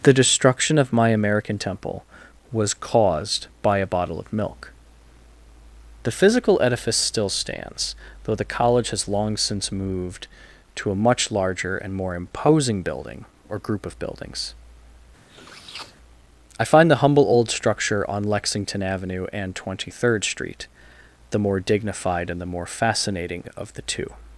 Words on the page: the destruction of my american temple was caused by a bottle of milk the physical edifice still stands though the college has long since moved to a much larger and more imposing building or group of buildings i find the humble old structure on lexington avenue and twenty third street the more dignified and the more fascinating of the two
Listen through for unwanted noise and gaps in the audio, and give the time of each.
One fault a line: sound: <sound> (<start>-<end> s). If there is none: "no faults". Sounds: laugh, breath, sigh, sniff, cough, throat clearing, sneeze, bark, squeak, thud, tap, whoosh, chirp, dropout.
sound: sniff (15.3-16.0 s)